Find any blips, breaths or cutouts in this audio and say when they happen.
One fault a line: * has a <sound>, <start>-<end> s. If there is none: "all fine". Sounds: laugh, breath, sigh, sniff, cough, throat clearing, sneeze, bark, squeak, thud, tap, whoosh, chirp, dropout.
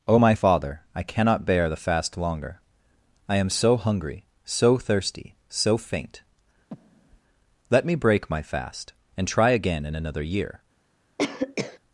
* has a breath, 6.7-7.2 s
* has a cough, 11.2-11.8 s